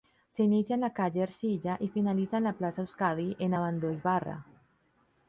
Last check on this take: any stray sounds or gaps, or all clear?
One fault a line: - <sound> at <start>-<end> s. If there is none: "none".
none